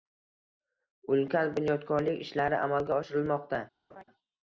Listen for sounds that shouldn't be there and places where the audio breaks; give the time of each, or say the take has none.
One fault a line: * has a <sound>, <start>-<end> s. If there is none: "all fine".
* has a laugh, 3.9-4.0 s